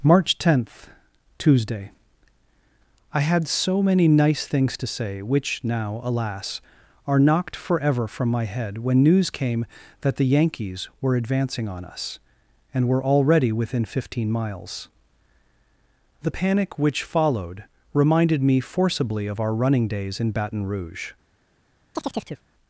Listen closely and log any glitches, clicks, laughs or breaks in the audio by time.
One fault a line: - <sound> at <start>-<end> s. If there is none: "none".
- chirp at 21.9-22.4 s